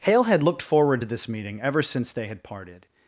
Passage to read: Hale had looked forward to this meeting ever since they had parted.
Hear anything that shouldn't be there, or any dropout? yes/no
no